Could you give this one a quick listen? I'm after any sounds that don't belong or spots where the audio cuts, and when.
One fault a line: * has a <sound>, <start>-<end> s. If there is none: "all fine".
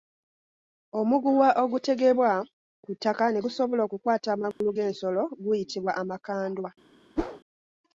* has a dropout, 4.5-4.6 s
* has a whoosh, 7.2-7.4 s